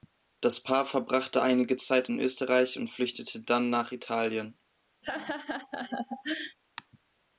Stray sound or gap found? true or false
true